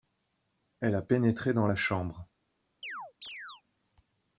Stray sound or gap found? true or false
true